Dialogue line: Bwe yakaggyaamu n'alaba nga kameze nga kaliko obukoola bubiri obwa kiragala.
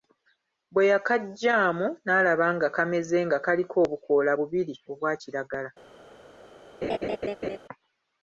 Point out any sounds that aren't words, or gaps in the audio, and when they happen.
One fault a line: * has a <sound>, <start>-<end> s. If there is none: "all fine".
* has a laugh, 6.8-7.6 s